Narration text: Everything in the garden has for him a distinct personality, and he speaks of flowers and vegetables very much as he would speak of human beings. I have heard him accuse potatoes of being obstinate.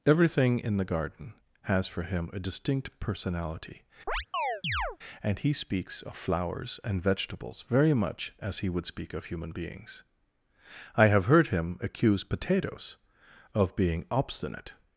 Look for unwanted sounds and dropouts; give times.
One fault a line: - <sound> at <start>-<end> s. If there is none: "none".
- chirp at 4.1-5.0 s